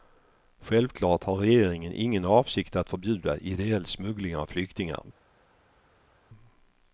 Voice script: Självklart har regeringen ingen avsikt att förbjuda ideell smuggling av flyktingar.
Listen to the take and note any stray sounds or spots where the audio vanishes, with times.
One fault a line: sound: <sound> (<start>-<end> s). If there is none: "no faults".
no faults